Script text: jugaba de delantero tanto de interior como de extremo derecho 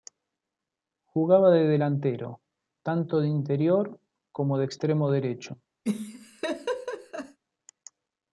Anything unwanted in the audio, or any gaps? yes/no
yes